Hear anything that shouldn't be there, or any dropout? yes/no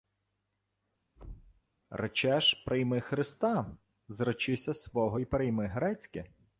yes